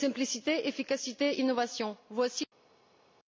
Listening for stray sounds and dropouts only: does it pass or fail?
pass